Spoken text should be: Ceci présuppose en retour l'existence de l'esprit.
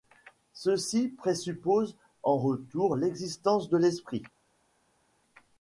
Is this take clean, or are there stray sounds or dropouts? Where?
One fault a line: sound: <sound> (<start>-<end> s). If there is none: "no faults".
no faults